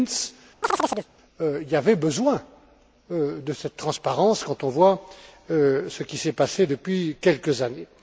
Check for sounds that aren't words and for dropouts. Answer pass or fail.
fail